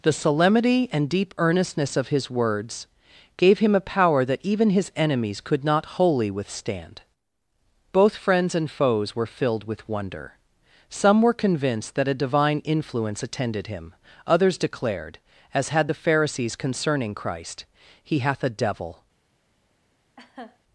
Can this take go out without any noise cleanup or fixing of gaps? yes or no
no